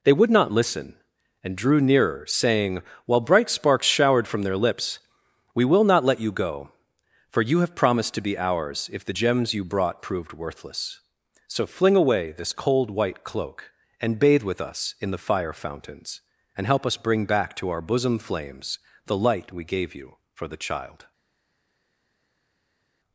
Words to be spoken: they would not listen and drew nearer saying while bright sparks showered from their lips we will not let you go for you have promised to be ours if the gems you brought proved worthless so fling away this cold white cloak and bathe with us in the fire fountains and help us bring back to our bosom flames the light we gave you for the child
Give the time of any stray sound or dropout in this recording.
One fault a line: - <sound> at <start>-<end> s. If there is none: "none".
none